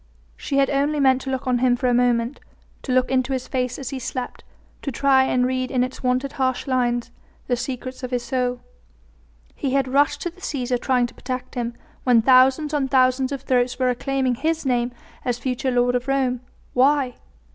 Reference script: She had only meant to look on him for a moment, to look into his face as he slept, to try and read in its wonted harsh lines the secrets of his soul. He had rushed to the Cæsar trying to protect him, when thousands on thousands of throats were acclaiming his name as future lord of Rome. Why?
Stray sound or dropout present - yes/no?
no